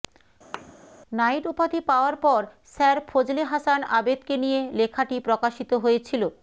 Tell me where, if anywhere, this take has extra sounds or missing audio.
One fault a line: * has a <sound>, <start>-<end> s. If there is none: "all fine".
* has a thud, 0.5-0.7 s